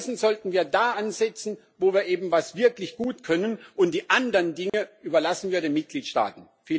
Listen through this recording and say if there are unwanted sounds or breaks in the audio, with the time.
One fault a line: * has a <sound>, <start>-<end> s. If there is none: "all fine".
* has a dropout, 4.7-4.7 s